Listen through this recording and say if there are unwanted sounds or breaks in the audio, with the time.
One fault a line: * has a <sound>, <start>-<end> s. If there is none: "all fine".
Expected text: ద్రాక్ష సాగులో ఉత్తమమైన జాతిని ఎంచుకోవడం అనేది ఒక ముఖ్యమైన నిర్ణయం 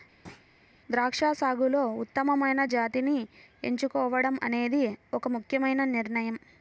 * has a thud, 0.2-0.5 s